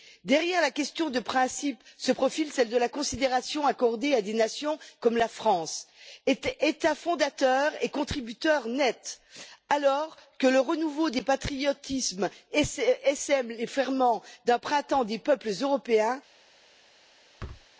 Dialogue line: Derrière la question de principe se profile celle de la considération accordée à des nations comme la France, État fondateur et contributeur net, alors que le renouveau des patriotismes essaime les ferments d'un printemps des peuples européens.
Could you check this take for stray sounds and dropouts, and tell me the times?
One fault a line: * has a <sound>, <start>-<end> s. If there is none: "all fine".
* has a thud, 17.4-17.7 s